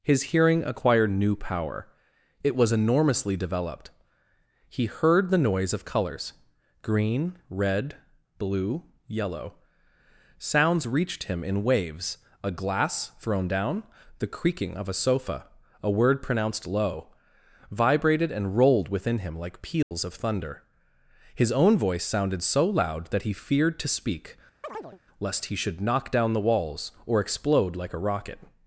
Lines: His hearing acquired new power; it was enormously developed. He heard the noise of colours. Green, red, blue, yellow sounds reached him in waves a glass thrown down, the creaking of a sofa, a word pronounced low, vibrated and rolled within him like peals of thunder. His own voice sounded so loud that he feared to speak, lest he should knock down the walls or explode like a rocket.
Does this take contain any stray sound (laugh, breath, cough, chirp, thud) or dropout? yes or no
yes